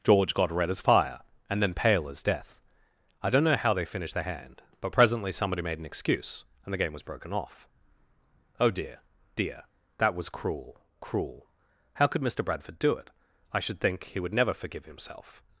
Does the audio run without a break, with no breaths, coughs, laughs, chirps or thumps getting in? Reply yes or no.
yes